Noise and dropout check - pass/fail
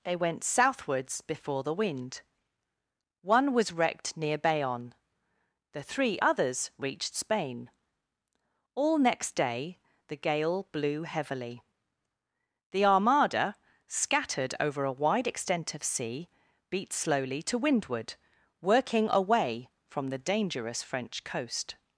pass